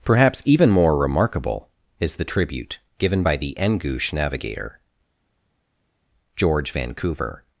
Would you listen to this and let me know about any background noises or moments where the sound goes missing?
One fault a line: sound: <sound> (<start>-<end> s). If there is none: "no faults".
no faults